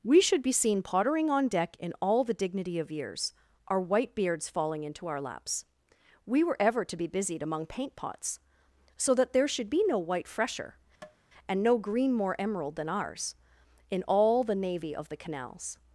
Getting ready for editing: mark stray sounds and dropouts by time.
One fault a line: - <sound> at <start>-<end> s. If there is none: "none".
- tap at 11.0-11.2 s